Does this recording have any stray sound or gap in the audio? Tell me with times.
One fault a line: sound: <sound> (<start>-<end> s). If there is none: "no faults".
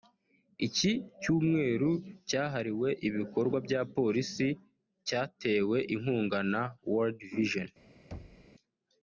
sound: thud (8.1-8.5 s)